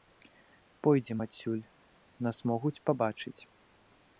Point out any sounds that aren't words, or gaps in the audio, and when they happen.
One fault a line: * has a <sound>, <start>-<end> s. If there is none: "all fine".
all fine